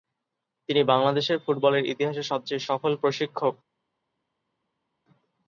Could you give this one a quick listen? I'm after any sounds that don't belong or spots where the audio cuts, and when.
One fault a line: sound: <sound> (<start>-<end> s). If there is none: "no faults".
no faults